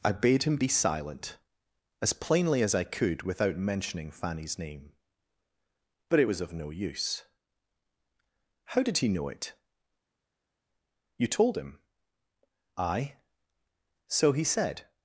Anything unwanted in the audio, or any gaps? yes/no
no